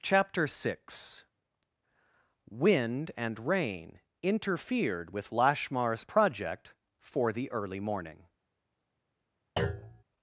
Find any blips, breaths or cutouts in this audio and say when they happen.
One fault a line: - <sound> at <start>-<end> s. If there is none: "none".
- thud at 9.6-10.0 s